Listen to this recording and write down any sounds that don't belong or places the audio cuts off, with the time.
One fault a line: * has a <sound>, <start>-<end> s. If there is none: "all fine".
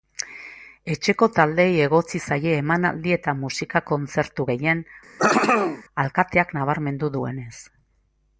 * has a throat clearing, 5.2-5.8 s